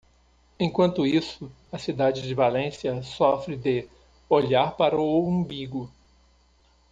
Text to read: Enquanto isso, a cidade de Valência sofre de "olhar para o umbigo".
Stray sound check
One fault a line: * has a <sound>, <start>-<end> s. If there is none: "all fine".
all fine